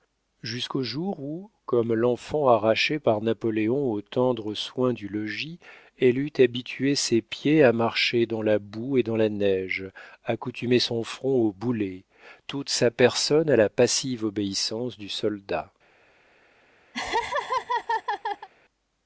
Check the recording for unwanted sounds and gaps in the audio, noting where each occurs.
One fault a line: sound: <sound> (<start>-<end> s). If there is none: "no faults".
sound: laugh (16.9-18.5 s)